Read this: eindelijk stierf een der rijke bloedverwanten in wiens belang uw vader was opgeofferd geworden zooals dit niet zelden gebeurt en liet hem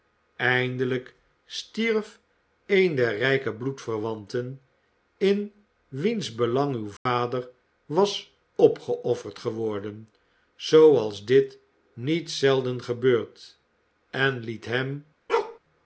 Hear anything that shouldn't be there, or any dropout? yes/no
yes